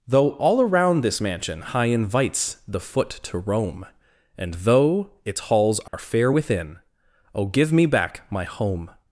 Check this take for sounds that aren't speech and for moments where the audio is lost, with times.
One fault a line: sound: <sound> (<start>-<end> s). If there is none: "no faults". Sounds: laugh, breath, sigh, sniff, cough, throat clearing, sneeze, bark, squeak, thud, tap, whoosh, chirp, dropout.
sound: dropout (5.9-5.9 s)